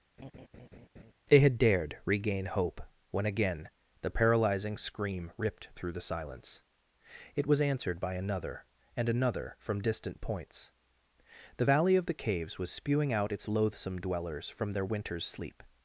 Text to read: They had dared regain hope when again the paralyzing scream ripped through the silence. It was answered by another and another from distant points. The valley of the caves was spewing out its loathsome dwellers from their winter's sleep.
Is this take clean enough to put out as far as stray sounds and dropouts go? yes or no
no